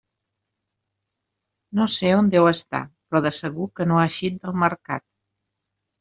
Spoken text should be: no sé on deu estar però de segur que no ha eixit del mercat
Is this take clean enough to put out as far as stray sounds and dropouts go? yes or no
yes